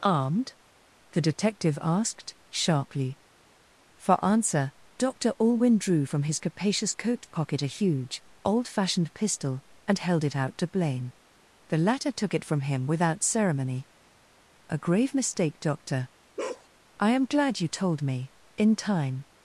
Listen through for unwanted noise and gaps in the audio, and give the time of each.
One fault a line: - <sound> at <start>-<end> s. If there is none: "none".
- bark at 16.4-16.7 s